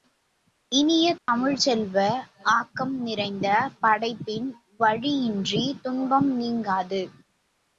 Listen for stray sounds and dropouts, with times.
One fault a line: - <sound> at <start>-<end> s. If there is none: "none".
- dropout at 1.2-1.3 s